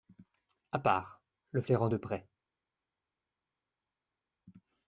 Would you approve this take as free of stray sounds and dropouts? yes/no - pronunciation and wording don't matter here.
yes